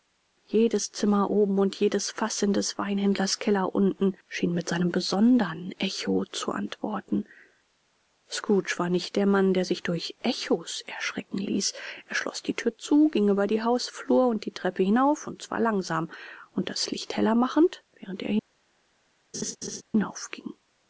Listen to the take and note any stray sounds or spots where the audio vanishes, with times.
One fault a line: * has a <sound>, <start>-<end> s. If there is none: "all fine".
* has a laugh, 19.3-19.8 s